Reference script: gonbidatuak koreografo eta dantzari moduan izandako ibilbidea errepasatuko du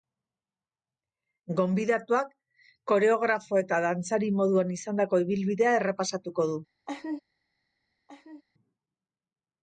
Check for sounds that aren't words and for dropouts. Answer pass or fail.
fail